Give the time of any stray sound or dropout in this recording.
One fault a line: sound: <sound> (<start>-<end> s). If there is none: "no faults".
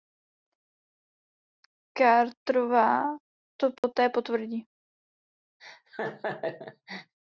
sound: dropout (3.8-3.8 s)
sound: laugh (5.6-7.1 s)